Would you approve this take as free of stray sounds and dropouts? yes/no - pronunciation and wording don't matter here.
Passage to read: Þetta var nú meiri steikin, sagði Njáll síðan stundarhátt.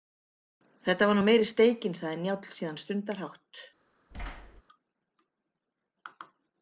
no